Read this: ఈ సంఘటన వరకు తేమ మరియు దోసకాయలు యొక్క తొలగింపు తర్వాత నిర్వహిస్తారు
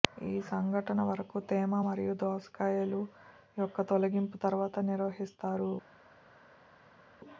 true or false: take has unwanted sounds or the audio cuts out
false